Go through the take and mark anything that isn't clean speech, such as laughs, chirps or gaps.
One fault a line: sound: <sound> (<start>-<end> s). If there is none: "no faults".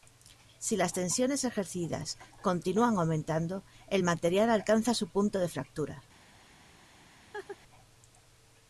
sound: laugh (7.3-7.6 s)